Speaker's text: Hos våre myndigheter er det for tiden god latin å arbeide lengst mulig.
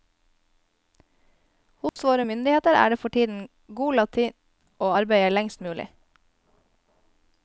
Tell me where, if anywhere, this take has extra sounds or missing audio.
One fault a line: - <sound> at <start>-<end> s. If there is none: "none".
- dropout at 1.9-2.0 s